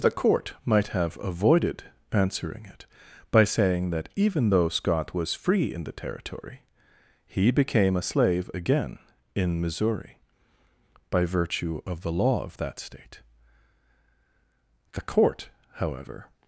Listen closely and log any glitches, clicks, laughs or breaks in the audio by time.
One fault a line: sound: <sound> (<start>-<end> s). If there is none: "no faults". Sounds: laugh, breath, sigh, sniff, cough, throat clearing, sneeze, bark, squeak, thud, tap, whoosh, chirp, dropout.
no faults